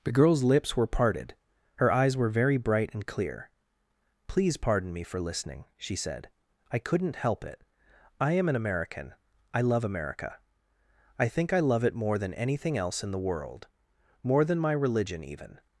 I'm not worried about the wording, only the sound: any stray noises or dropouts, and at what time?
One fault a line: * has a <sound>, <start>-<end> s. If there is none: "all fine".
all fine